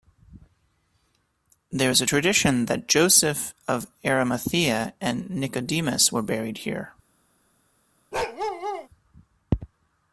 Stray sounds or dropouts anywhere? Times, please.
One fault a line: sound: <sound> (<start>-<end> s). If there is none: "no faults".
sound: bark (8.1-8.9 s)